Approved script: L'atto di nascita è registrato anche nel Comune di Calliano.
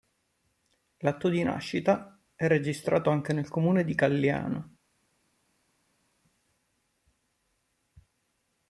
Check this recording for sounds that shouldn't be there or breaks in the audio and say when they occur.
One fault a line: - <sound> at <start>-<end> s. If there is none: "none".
none